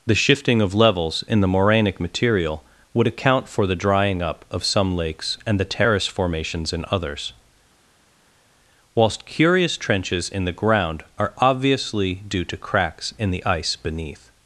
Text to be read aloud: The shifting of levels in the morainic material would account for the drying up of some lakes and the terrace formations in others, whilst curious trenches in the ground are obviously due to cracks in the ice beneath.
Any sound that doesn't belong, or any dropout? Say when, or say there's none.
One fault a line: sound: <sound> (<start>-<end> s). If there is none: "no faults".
no faults